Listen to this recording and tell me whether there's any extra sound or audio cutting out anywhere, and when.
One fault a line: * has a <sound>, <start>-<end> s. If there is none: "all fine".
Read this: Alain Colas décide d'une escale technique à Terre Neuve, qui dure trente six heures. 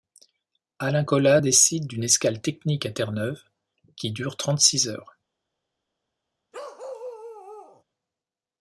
* has a bark, 6.5-7.8 s